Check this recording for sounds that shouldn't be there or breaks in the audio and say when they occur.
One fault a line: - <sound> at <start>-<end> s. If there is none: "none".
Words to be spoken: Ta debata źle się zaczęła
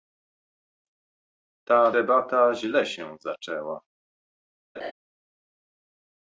- laugh at 4.7-4.9 s